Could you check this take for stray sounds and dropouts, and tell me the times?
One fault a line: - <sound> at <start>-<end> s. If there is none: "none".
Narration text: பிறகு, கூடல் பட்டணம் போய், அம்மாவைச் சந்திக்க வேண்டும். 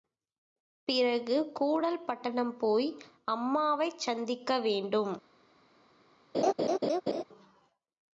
- laugh at 6.3-7.2 s